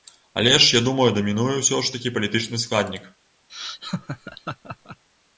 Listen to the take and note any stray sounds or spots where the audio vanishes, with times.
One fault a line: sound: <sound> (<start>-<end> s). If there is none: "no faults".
sound: laugh (3.5-5.0 s)